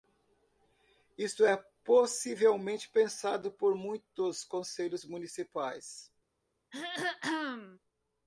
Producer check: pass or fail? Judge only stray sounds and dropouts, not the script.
fail